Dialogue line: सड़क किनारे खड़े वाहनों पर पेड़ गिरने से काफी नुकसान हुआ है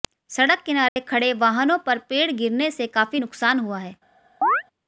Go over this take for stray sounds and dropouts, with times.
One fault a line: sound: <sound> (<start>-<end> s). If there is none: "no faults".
sound: dropout (0.9-1.0 s)
sound: chirp (4.4-4.6 s)